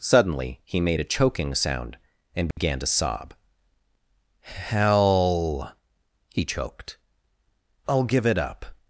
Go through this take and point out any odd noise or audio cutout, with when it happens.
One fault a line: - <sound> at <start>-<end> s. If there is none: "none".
- dropout at 2.5-2.6 s